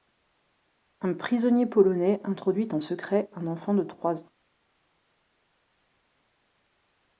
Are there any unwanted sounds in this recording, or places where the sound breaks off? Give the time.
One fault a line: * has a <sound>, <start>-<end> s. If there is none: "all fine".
all fine